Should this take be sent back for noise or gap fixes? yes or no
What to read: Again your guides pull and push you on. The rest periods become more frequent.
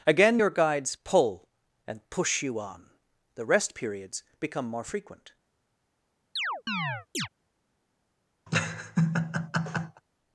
yes